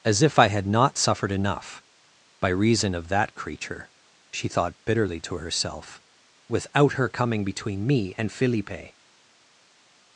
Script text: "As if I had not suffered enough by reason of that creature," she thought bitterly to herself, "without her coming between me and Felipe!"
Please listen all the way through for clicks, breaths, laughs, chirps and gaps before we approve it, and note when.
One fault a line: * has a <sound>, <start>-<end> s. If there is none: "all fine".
all fine